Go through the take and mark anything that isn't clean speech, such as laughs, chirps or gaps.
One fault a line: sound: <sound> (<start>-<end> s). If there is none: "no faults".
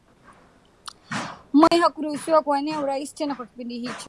sound: dropout (1.7-1.7 s)